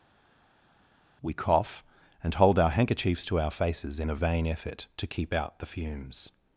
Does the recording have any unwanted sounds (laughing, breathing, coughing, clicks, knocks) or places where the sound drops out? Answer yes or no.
no